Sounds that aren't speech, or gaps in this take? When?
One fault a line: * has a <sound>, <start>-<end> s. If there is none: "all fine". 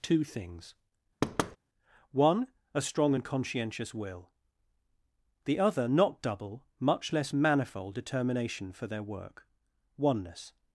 * has a thud, 1.2-1.6 s